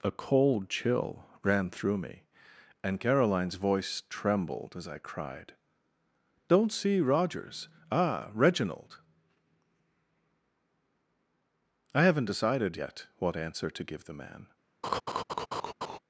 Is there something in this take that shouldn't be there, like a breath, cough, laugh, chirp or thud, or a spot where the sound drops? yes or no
yes